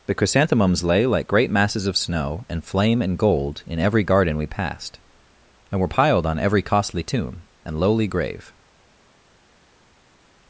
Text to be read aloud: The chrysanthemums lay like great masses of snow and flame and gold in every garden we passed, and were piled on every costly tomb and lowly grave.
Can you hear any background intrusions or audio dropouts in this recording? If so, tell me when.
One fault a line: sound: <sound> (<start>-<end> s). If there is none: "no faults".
no faults